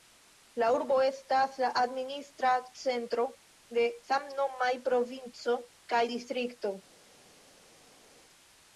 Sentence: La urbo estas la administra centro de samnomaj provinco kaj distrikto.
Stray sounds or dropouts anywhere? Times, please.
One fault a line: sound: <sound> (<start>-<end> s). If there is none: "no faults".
no faults